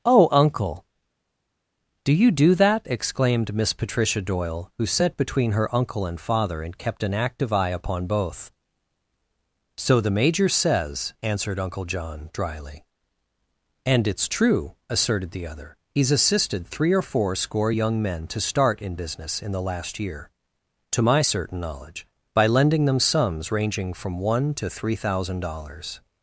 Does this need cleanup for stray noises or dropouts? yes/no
no